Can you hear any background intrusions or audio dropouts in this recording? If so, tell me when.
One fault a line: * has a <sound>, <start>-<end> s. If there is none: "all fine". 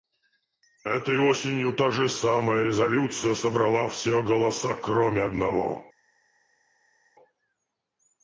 all fine